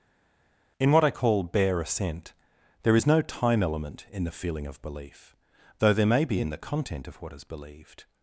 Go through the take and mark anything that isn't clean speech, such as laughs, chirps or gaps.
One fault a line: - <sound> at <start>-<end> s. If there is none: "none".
none